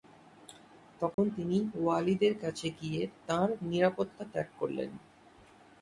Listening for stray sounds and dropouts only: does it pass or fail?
fail